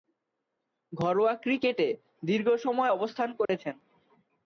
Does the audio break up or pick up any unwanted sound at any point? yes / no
yes